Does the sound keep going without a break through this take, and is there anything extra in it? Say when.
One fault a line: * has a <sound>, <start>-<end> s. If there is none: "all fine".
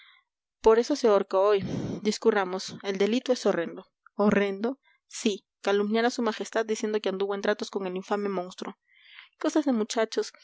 all fine